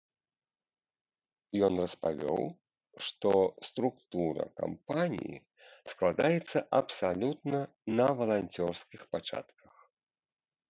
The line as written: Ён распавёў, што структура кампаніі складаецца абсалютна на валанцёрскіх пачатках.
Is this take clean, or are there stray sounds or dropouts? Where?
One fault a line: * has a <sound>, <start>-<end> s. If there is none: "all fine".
all fine